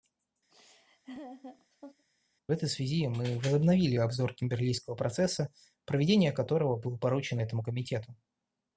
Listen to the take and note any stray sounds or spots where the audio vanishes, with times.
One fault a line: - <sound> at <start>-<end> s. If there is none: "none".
- laugh at 0.5-2.1 s